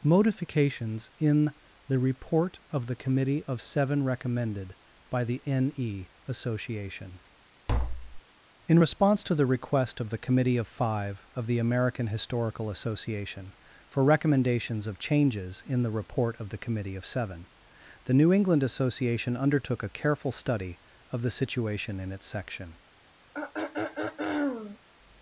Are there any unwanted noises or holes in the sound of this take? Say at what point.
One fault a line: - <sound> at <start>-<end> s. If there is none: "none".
- tap at 7.7-8.2 s
- throat clearing at 23.3-24.8 s